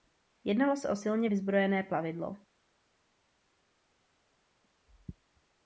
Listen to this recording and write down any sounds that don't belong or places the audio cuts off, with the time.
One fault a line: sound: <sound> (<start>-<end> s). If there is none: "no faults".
no faults